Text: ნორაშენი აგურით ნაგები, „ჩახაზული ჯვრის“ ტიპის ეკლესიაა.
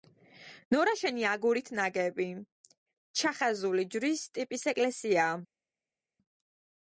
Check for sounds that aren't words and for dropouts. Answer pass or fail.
pass